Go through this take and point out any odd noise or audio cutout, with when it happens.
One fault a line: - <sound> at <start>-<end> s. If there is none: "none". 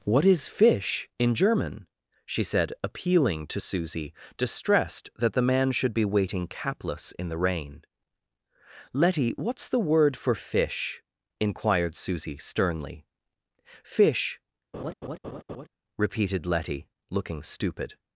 - laugh at 14.7-15.7 s